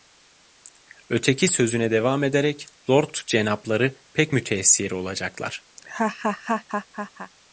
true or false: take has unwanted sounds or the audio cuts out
true